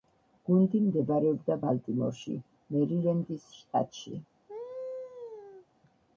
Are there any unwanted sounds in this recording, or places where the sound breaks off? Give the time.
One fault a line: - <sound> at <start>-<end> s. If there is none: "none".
- laugh at 4.5-5.7 s